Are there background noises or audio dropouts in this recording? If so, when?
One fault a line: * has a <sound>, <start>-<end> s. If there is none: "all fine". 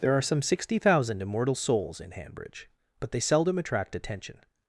all fine